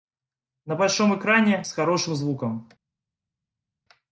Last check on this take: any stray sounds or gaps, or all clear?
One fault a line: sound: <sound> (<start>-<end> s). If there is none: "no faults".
no faults